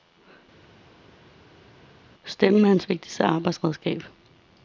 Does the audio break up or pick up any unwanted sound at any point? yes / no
no